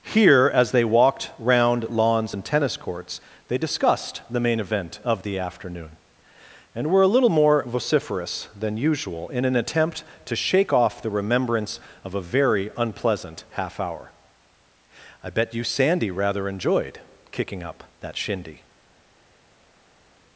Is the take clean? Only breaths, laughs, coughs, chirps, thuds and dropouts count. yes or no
yes